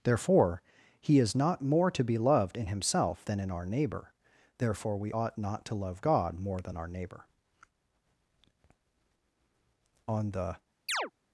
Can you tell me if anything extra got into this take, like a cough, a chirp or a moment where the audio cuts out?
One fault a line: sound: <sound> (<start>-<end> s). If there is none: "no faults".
sound: chirp (10.9-11.1 s)